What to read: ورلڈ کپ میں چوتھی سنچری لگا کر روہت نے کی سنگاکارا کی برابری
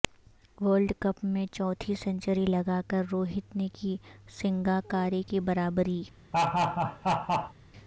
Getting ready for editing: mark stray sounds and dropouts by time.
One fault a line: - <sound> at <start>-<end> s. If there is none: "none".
- laugh at 6.3-7.5 s